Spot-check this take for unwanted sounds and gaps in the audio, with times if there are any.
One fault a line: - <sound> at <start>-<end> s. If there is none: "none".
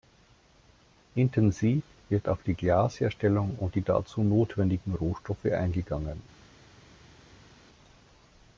none